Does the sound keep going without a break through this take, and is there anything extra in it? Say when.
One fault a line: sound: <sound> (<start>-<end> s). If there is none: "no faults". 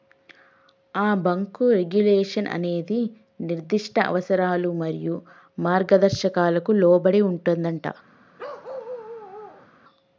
sound: bark (8.4-9.7 s)